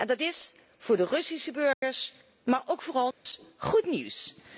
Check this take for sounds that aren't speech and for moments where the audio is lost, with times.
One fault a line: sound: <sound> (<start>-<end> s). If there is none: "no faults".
sound: dropout (1.7-1.8 s)
sound: dropout (3.1-3.3 s)